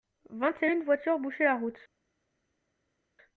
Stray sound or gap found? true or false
false